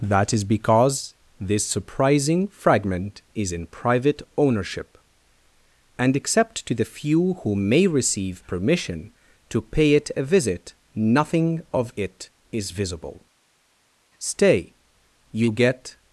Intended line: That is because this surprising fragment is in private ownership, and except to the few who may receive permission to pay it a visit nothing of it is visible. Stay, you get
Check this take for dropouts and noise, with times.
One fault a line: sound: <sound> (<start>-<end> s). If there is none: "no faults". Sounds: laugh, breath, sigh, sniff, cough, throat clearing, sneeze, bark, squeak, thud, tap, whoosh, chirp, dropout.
no faults